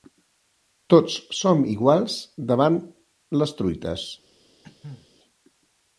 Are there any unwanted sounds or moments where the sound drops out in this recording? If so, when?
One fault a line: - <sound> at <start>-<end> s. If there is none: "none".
- cough at 4.6-5.1 s